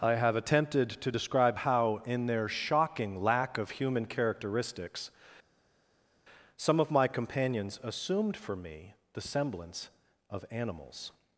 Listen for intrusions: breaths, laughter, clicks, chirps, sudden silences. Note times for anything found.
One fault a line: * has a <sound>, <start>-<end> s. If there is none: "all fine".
all fine